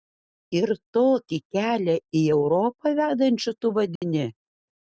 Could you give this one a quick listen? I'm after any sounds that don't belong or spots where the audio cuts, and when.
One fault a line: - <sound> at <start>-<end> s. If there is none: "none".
- dropout at 4.0-4.0 s